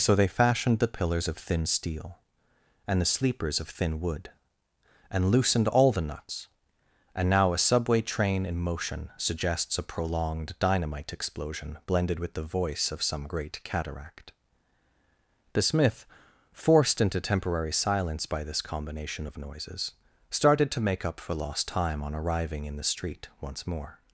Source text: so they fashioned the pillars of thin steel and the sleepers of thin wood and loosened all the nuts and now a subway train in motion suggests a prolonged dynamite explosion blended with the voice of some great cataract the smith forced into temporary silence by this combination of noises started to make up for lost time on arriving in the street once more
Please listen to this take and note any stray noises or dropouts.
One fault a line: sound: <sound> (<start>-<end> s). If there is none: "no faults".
no faults